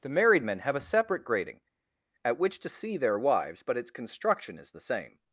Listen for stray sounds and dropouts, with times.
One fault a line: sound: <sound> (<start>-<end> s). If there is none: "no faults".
no faults